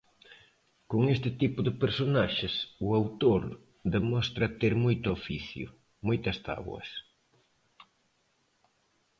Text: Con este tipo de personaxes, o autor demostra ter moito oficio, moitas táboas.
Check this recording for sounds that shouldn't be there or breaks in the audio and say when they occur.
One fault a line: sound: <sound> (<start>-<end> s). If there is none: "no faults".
no faults